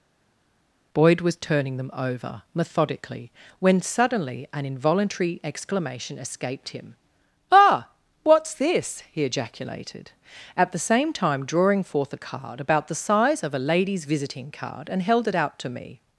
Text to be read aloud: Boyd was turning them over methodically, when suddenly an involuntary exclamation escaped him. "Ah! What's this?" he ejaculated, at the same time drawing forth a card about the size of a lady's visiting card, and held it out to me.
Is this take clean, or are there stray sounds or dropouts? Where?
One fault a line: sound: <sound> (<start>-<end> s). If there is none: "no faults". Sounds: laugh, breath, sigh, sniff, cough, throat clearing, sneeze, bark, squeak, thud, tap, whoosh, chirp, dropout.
no faults